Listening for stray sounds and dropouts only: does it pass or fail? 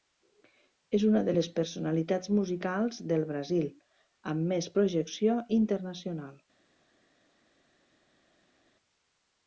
pass